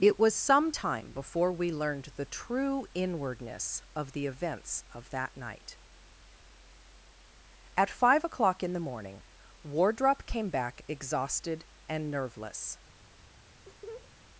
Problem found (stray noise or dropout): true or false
true